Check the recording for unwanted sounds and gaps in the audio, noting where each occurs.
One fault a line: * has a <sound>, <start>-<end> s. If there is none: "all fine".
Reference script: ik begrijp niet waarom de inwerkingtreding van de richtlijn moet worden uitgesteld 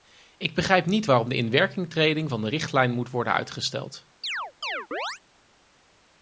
* has a chirp, 4.2-5.2 s